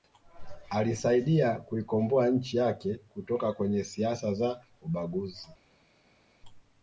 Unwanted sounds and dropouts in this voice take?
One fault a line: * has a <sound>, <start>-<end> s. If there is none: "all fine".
all fine